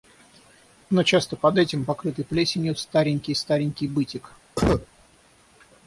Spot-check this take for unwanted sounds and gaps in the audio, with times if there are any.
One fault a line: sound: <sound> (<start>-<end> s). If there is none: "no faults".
sound: cough (4.6-4.9 s)